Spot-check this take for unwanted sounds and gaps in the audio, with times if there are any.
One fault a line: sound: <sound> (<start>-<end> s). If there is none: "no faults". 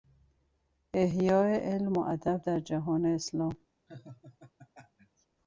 sound: laugh (3.9-5.3 s)